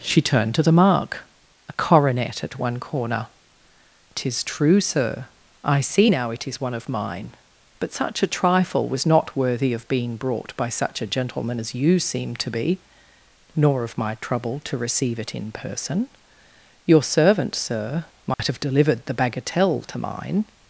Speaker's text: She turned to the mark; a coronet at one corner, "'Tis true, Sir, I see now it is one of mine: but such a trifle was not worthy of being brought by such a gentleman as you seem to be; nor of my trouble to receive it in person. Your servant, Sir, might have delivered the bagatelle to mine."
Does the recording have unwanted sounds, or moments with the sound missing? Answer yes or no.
yes